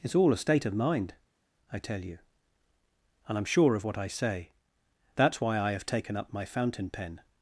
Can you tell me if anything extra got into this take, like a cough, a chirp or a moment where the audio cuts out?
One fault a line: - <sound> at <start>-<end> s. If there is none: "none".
none